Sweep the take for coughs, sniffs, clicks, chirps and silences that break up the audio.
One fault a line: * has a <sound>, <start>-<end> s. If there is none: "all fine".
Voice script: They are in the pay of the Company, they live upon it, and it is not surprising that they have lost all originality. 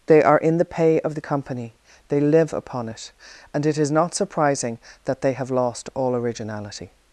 all fine